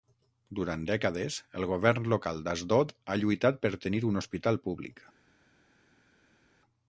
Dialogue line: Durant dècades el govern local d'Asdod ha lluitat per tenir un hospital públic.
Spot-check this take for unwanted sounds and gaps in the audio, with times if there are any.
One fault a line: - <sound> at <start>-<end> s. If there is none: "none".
none